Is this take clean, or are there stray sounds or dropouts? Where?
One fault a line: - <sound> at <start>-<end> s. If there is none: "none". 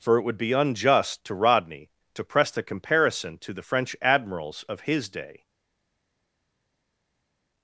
none